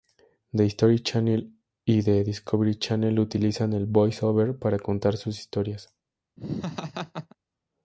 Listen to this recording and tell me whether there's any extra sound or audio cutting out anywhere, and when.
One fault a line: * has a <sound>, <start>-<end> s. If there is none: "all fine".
* has a laugh, 6.4-7.4 s